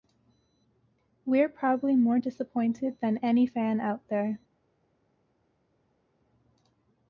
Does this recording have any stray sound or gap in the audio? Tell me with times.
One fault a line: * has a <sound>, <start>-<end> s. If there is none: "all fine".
all fine